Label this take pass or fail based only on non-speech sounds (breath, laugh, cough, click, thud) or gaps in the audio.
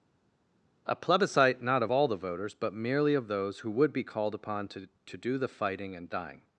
pass